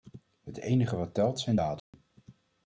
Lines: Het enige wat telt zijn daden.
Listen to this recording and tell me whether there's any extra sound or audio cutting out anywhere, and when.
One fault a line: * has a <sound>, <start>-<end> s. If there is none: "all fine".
* has a dropout, 1.8-1.9 s